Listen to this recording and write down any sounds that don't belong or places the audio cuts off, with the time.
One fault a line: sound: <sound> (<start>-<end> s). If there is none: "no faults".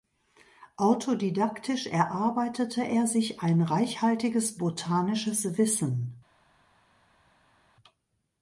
no faults